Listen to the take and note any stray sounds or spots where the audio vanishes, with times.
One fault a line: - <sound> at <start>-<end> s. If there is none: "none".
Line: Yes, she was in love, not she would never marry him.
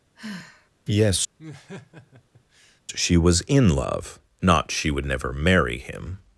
- sigh at 0.1-0.7 s
- laugh at 1.4-2.8 s